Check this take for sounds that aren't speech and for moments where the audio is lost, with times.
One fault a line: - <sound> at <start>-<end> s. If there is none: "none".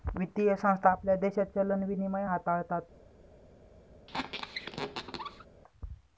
- squeak at 4.1-5.5 s